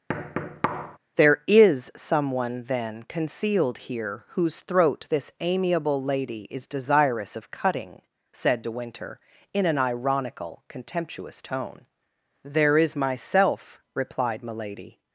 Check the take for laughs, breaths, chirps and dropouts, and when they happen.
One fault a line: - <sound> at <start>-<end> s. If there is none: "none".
- thud at 0.1-1.0 s